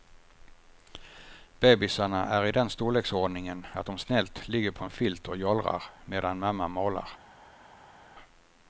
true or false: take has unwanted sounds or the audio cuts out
false